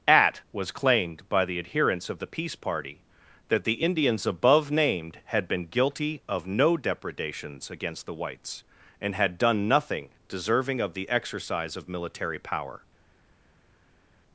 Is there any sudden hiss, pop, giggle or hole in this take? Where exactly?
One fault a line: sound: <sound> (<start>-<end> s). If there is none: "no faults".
no faults